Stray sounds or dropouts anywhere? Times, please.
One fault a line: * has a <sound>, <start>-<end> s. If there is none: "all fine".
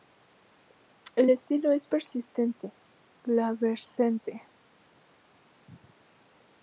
all fine